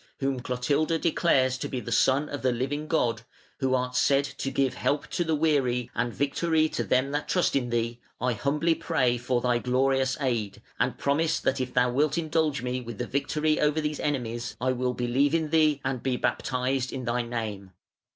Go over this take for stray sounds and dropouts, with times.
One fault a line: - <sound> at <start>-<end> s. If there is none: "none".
none